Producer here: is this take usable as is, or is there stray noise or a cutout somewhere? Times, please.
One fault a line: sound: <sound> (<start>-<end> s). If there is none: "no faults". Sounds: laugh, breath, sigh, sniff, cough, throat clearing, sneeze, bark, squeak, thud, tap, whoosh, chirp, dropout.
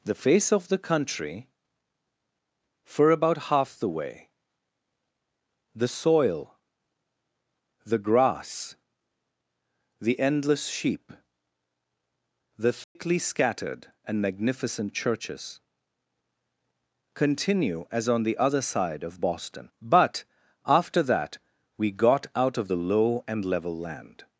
sound: dropout (12.8-13.0 s)